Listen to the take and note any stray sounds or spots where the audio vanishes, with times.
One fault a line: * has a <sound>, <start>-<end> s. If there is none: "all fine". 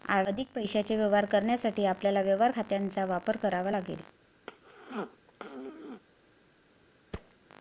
* has a throat clearing, 4.5-6.0 s
* has a thud, 7.1-7.3 s